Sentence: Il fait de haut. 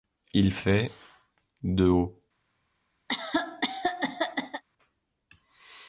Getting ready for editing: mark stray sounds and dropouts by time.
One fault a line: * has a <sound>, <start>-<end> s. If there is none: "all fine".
* has a cough, 3.1-4.6 s